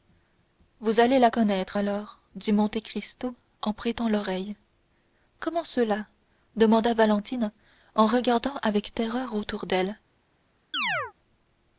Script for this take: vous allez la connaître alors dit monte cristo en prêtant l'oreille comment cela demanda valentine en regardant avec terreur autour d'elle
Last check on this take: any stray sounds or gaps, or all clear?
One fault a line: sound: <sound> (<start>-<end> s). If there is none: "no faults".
sound: chirp (10.7-11.1 s)